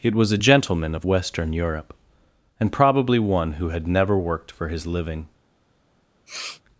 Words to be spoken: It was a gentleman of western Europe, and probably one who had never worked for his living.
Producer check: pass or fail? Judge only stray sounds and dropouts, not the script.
fail